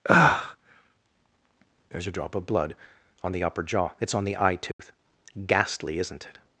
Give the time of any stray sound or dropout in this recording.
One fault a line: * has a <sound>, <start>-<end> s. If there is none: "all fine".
* has a dropout, 4.7-4.8 s